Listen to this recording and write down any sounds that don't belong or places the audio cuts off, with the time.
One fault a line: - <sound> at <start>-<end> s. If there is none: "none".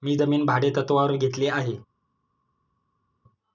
none